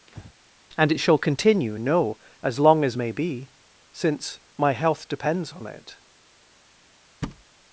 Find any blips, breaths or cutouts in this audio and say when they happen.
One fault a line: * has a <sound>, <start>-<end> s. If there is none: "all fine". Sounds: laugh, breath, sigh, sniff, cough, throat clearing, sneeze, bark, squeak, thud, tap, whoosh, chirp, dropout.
* has a breath, 0.1-0.3 s
* has a thud, 7.2-7.4 s